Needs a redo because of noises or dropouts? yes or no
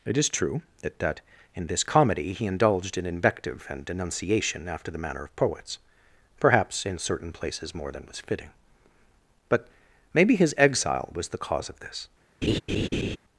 yes